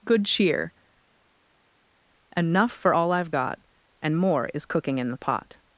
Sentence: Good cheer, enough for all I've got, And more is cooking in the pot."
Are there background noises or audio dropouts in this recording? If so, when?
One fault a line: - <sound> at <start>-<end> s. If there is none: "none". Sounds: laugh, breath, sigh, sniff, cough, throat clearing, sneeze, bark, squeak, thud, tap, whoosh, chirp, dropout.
none